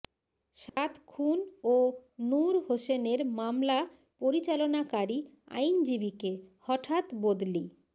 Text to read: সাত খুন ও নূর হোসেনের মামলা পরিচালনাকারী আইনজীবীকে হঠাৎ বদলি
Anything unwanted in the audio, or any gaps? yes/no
yes